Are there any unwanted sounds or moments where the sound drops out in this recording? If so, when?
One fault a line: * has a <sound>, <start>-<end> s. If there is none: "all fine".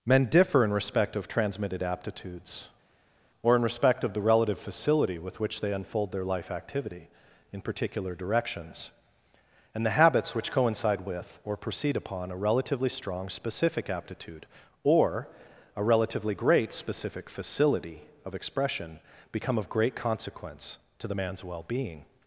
all fine